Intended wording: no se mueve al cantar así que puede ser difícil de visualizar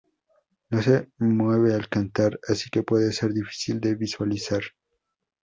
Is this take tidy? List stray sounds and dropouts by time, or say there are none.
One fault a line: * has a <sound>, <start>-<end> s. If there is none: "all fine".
all fine